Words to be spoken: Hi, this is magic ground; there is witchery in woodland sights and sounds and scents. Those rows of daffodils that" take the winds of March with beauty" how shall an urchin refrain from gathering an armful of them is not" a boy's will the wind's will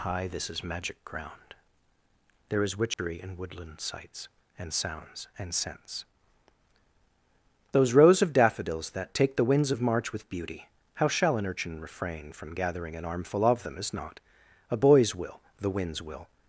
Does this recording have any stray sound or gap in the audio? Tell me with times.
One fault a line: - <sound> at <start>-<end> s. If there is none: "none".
- dropout at 2.9-3.0 s